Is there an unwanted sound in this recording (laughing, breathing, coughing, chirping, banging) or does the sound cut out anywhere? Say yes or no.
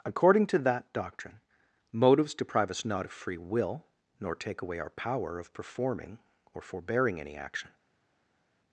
no